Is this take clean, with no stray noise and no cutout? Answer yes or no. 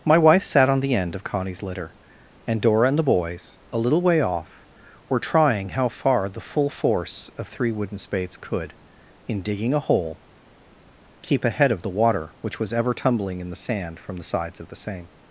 yes